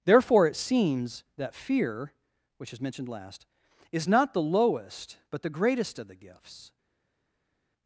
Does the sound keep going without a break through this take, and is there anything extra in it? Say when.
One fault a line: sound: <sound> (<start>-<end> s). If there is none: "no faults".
no faults